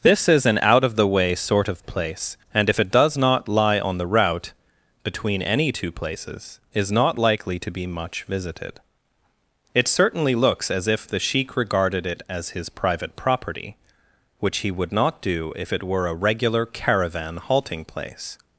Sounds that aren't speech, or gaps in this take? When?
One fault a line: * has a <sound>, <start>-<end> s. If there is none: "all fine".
all fine